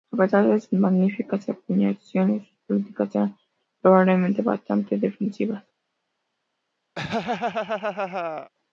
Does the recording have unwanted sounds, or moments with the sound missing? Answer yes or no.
yes